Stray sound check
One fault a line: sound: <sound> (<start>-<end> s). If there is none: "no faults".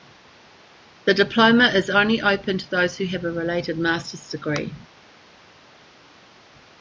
no faults